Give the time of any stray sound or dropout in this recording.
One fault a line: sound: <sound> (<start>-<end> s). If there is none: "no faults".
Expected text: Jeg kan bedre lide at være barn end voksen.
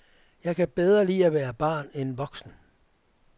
no faults